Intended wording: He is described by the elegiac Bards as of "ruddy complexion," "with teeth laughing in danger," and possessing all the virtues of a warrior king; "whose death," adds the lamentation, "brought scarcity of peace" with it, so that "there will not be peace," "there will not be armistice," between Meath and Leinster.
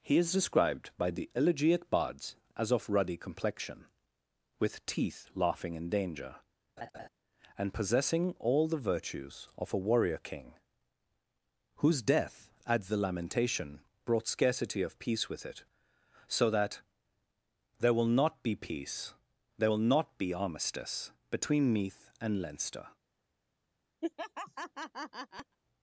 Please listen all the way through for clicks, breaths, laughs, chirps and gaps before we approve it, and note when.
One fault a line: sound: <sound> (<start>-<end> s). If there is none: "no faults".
sound: laugh (6.8-7.1 s)
sound: laugh (24.0-25.6 s)